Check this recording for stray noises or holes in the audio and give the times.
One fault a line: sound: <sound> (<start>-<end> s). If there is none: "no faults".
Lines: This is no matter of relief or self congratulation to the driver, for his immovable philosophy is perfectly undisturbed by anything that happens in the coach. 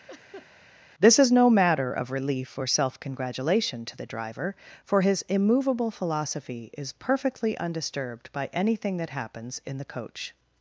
sound: laugh (0.1-0.5 s)